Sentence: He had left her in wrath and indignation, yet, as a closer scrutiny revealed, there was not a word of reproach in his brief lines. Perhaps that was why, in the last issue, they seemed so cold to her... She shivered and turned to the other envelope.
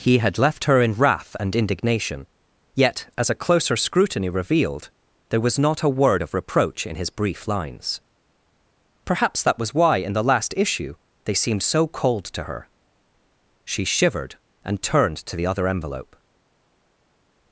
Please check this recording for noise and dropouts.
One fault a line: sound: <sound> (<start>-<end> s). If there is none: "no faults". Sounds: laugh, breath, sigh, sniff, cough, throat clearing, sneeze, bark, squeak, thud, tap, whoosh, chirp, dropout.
no faults